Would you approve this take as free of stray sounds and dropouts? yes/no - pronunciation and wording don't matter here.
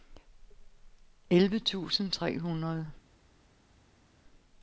yes